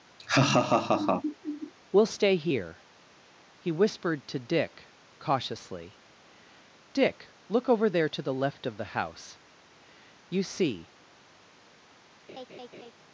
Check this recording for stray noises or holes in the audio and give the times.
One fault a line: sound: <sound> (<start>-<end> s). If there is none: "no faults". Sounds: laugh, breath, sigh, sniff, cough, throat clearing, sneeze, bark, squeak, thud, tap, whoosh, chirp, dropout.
sound: laugh (0.2-1.7 s)
sound: laugh (12.3-12.9 s)